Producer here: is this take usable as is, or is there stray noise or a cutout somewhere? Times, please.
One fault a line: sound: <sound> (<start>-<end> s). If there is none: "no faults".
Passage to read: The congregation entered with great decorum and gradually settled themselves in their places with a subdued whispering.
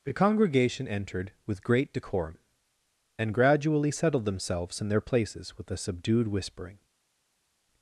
no faults